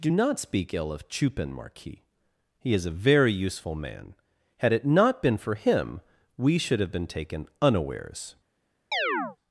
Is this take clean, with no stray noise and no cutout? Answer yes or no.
no